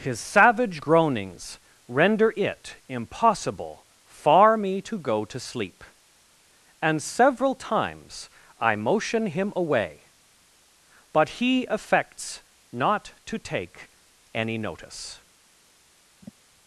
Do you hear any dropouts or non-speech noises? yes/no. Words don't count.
yes